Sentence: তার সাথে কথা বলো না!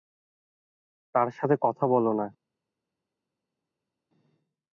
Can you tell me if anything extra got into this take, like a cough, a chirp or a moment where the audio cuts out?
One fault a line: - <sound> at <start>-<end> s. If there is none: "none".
none